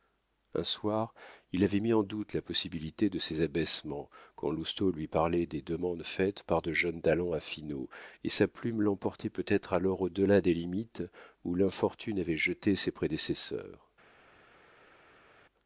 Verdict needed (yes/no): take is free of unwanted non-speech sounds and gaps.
yes